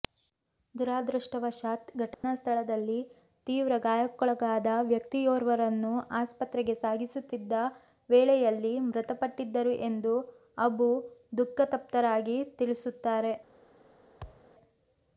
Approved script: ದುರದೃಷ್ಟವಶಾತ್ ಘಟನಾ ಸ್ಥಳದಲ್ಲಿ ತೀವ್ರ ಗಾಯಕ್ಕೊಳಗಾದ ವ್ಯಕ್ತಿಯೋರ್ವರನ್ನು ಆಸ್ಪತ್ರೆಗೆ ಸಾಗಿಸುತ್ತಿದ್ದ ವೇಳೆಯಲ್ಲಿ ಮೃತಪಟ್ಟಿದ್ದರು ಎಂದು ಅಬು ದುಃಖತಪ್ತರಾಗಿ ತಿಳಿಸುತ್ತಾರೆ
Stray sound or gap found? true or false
true